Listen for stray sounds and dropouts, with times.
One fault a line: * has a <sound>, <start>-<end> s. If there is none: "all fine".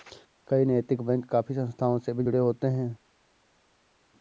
all fine